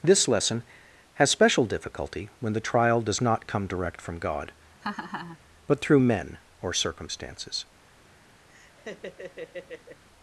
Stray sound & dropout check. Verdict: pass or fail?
fail